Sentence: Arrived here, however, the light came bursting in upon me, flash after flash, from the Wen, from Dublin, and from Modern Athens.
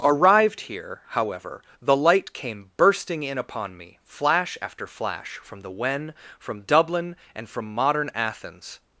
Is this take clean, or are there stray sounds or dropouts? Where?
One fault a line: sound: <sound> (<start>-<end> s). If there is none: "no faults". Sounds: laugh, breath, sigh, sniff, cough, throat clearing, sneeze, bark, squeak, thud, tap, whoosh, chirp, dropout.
no faults